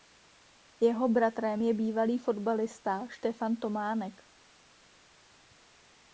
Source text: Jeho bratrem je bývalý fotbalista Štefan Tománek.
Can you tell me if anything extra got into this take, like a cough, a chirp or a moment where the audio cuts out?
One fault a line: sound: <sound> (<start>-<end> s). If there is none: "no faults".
no faults